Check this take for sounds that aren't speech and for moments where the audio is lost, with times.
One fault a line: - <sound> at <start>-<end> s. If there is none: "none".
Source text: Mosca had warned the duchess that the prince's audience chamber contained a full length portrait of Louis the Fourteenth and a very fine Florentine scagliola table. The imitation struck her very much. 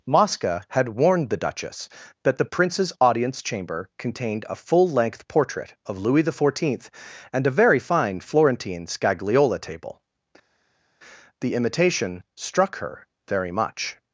none